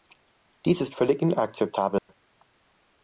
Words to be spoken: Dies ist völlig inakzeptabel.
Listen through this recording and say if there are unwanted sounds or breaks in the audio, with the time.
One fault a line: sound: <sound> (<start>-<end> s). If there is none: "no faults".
sound: dropout (2.0-2.1 s)